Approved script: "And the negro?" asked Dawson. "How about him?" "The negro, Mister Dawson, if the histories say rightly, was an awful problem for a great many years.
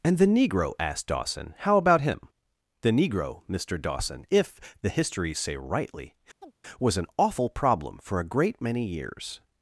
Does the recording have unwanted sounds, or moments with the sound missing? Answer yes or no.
yes